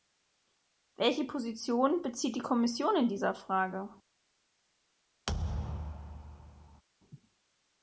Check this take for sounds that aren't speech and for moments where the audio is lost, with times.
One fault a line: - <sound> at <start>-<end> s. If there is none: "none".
- thud at 5.3-6.8 s